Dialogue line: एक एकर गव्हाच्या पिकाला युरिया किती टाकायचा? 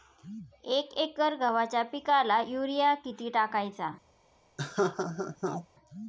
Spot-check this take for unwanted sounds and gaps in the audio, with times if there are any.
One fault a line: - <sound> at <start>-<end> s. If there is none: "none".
- laugh at 4.6-5.7 s